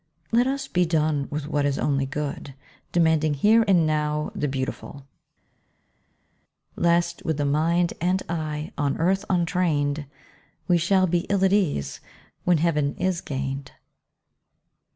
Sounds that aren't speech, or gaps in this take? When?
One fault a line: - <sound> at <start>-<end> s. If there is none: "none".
none